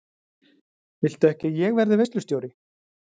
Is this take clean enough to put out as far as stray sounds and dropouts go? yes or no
yes